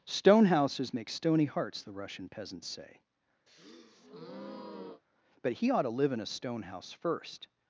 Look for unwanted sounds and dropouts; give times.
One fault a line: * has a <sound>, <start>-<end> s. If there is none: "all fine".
* has a breath, 3.5-5.0 s